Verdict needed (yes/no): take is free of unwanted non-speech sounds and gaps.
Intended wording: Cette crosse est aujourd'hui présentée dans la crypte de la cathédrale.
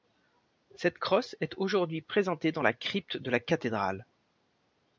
yes